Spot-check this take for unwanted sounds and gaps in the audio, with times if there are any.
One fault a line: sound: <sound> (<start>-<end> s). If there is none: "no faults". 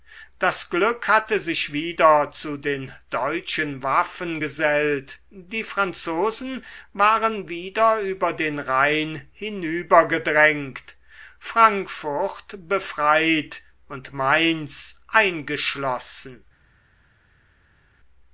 no faults